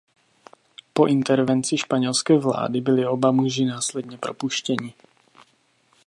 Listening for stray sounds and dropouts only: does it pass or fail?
pass